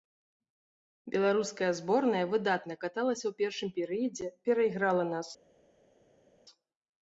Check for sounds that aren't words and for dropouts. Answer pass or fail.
pass